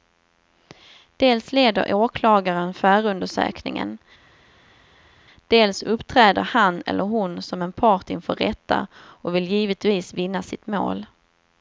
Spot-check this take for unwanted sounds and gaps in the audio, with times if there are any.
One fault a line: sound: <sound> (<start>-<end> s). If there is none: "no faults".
no faults